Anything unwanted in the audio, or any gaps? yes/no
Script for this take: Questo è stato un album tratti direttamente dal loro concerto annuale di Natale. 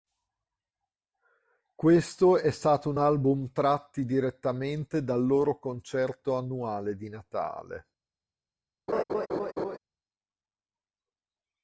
yes